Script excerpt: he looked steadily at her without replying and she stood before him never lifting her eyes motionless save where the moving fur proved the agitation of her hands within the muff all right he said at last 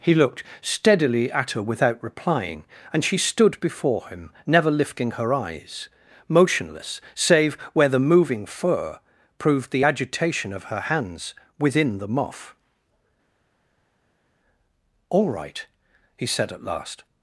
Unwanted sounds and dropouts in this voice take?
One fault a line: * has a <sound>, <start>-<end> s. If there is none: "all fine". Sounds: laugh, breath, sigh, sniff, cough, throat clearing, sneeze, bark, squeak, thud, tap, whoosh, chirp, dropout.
all fine